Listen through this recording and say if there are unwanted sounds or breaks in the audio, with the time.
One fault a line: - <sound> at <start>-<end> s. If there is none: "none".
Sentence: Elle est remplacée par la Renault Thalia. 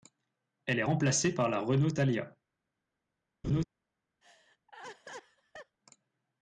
- laugh at 3.4-3.6 s
- laugh at 4.2-5.8 s